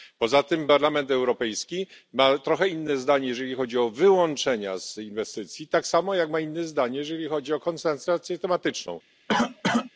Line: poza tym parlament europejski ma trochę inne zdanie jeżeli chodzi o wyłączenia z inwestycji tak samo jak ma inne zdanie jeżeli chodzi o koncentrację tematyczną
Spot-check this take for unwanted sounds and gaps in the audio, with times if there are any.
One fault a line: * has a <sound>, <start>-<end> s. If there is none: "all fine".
* has a cough, 9.3-9.9 s